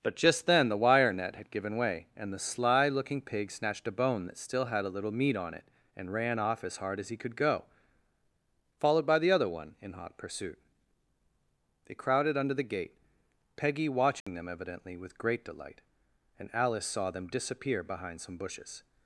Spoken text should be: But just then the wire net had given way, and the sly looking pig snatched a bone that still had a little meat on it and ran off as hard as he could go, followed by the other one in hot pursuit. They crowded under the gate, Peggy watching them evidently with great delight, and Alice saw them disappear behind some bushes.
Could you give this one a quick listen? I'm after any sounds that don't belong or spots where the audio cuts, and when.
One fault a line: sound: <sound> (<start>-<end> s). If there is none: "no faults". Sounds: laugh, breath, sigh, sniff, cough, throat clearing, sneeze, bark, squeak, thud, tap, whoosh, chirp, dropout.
sound: dropout (14.2-14.3 s)